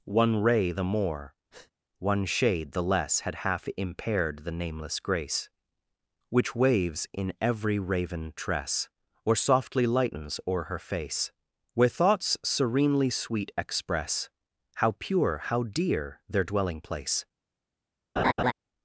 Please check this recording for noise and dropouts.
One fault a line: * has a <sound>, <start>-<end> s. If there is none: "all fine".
* has a breath, 1.5-1.7 s
* has a laugh, 18.2-18.5 s